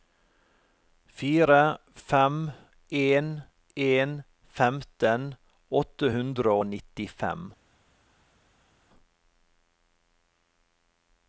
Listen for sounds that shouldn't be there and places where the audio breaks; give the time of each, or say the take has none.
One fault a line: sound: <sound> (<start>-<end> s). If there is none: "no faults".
no faults